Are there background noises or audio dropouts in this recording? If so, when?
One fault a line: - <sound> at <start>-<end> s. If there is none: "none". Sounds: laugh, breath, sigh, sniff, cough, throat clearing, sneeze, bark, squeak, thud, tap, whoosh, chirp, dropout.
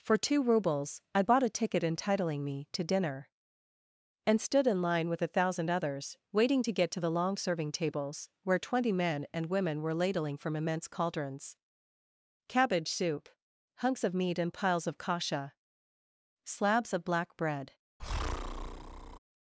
- breath at 18.0-19.2 s